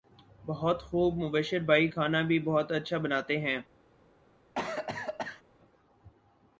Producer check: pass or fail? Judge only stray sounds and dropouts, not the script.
fail